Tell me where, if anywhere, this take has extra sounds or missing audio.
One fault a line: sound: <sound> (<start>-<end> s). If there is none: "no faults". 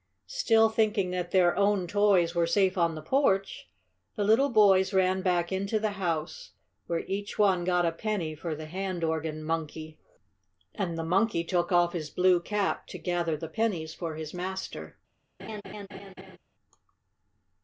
sound: laugh (15.4-16.4 s)